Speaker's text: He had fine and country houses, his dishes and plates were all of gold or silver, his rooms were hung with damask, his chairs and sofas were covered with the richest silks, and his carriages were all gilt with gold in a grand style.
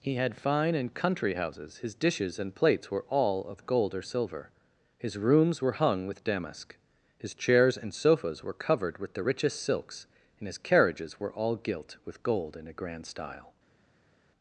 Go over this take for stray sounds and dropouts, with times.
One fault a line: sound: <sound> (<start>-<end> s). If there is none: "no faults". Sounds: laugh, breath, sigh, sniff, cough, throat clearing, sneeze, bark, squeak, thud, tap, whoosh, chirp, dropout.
no faults